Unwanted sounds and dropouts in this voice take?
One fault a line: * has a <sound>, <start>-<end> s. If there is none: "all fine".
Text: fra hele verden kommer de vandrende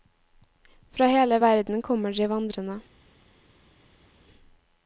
all fine